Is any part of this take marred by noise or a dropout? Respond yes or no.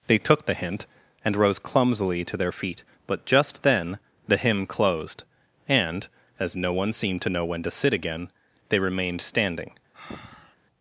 yes